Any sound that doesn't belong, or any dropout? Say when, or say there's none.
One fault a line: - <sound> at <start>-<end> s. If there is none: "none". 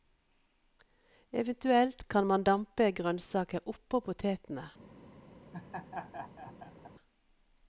- laugh at 5.5-6.9 s